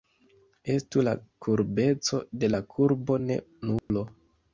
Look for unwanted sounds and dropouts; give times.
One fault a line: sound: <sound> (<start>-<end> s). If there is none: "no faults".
sound: dropout (3.8-3.9 s)